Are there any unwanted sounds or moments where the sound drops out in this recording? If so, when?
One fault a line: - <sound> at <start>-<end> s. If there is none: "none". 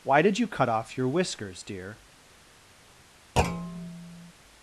- thud at 3.4-4.3 s